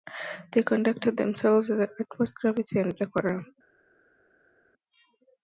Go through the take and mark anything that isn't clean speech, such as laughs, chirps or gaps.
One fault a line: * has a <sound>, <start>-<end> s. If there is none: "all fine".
all fine